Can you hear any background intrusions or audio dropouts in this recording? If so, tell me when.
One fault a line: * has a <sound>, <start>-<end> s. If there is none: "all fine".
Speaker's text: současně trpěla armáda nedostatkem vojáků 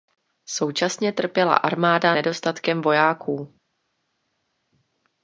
all fine